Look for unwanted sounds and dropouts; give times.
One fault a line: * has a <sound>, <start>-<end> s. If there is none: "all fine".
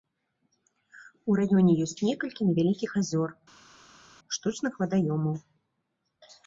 all fine